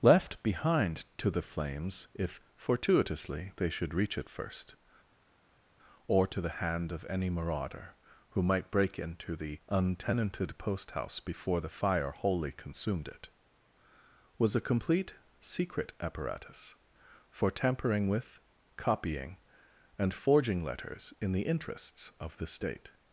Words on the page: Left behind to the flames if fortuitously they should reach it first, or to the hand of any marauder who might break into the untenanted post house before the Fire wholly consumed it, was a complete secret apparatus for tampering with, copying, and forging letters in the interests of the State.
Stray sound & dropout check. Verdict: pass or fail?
pass